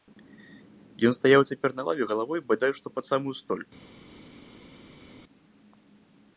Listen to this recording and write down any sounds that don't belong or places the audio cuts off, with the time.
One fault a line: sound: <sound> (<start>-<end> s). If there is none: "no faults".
no faults